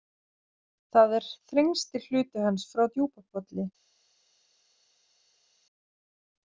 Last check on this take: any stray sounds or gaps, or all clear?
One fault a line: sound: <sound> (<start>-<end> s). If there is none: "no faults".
no faults